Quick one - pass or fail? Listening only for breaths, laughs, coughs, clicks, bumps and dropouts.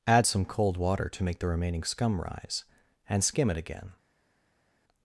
pass